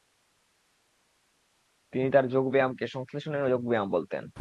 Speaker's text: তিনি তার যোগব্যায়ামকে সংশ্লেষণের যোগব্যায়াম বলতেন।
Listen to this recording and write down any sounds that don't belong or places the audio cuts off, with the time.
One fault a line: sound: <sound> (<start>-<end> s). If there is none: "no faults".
no faults